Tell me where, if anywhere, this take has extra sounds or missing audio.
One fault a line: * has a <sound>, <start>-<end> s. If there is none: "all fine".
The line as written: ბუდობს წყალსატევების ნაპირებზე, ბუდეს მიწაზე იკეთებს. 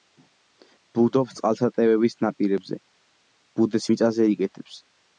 all fine